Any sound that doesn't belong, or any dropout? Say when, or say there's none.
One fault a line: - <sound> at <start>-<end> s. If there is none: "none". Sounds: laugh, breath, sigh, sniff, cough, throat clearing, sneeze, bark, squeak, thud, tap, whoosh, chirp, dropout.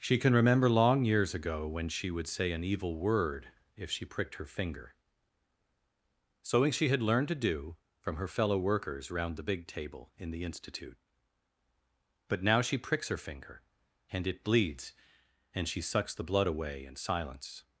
none